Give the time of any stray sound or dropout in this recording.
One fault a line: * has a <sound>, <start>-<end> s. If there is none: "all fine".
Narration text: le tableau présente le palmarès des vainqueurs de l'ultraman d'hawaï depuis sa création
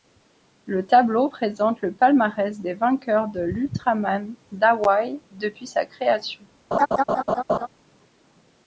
* has a laugh, 6.7-7.7 s